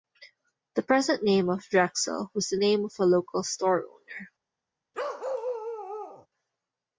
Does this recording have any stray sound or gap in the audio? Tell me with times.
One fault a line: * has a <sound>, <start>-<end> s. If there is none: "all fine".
* has a bark, 4.9-6.3 s